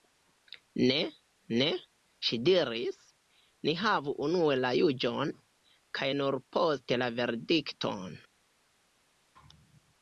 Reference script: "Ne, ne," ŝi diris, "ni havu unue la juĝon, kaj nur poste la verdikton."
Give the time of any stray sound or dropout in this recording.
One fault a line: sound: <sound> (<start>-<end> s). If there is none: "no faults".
no faults